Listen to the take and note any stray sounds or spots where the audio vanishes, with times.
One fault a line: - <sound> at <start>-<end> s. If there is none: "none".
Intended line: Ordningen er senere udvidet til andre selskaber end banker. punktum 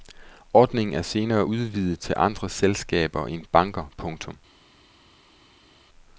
none